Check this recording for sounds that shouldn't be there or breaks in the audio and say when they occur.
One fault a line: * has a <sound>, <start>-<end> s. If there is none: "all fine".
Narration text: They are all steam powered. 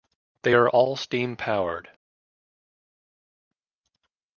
all fine